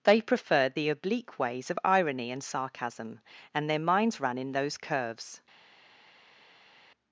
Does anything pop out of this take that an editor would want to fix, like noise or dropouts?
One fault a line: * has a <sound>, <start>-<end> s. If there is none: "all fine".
all fine